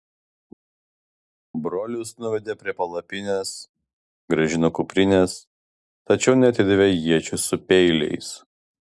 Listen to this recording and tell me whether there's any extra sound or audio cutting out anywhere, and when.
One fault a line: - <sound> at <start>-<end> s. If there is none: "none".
none